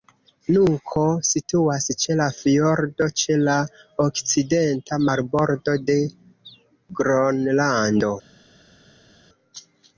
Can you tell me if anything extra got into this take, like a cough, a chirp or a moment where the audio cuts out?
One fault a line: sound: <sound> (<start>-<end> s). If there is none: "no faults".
no faults